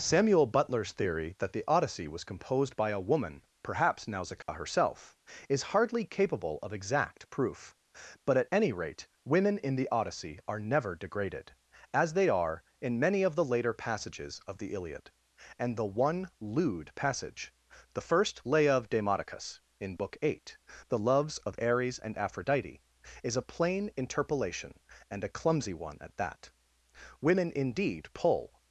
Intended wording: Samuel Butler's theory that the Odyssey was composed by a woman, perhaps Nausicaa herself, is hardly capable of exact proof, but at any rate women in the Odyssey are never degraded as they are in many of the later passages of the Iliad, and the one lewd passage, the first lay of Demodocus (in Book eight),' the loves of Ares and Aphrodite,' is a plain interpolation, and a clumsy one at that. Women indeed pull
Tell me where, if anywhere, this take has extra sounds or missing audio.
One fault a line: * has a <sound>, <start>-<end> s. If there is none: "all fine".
* has a dropout, 4.4-4.5 s